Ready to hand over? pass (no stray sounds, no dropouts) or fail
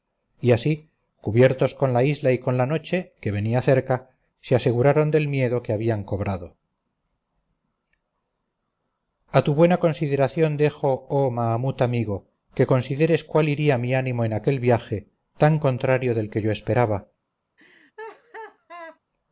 fail